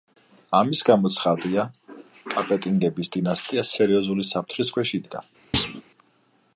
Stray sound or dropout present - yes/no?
yes